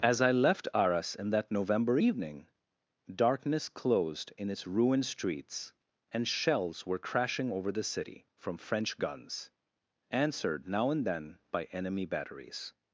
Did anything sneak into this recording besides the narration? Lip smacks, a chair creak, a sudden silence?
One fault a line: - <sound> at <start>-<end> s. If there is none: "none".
none